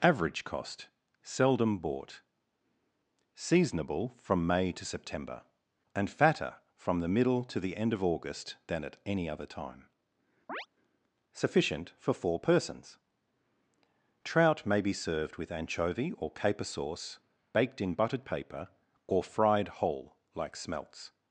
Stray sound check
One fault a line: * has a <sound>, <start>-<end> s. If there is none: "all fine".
* has a chirp, 10.5-10.7 s